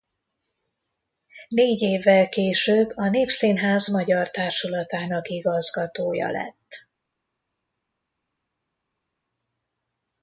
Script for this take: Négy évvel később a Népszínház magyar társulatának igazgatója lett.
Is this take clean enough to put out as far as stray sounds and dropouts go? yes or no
yes